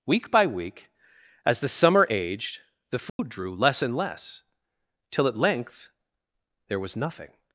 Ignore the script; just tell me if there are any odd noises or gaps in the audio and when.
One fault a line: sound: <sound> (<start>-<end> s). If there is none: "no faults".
sound: dropout (3.1-3.2 s)